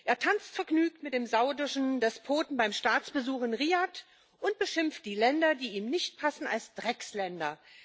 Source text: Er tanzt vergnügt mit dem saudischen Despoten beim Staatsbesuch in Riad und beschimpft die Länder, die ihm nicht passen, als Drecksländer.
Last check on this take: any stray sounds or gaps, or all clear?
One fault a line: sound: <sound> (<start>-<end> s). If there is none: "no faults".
no faults